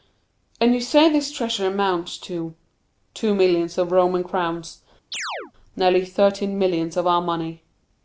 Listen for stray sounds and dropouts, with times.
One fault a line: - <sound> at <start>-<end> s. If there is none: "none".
- chirp at 5.1-5.5 s